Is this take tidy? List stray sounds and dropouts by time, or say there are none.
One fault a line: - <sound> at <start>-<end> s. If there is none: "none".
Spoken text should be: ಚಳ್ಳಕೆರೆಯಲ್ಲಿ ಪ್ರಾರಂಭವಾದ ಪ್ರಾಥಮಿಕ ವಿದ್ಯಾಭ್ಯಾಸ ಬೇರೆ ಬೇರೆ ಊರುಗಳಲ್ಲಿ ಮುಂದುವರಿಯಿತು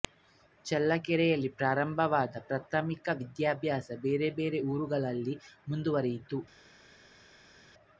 none